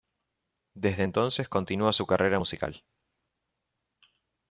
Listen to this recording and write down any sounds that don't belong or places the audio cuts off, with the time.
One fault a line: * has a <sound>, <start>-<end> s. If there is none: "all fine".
all fine